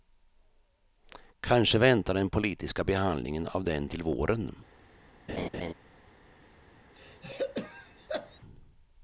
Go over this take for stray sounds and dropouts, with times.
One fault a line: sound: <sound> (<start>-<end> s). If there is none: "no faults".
sound: laugh (5.3-5.7 s)
sound: throat clearing (7.0-8.4 s)